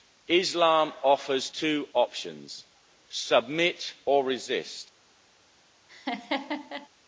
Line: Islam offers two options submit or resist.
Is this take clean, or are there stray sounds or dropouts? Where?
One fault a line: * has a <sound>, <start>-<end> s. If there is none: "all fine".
* has a laugh, 5.9-6.9 s